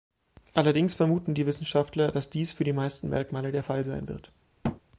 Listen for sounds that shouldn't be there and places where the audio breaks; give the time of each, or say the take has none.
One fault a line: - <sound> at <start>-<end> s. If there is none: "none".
- thud at 4.6-4.8 s